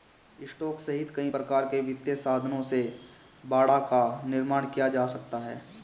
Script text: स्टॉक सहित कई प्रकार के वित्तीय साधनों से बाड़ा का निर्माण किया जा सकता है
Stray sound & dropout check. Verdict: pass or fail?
pass